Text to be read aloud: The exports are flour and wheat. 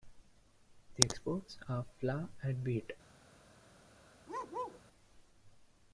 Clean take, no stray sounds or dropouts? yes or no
no